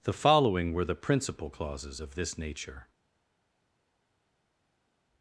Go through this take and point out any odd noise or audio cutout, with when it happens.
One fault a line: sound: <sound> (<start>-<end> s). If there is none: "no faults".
no faults